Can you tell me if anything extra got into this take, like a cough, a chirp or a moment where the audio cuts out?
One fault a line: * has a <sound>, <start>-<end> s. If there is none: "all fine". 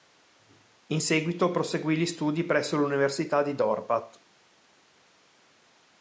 all fine